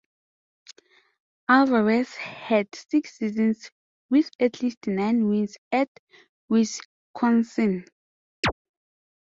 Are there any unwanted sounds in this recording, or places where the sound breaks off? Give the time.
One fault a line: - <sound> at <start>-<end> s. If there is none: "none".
- chirp at 8.4-8.5 s